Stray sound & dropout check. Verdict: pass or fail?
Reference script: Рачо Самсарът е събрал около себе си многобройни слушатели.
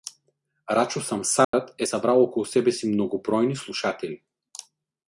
fail